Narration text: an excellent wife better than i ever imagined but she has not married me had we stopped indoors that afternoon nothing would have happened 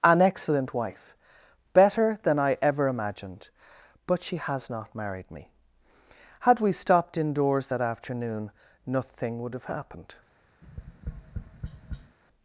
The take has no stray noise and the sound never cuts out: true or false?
false